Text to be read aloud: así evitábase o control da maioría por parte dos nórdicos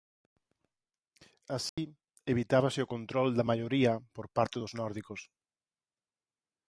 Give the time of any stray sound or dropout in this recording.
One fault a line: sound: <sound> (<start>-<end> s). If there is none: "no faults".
sound: dropout (1.7-1.8 s)